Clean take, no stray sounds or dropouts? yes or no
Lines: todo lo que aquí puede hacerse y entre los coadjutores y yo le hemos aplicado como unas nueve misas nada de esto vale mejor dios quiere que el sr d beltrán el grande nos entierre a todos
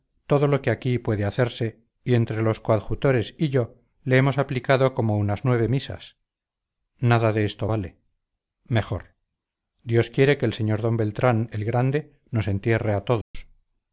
no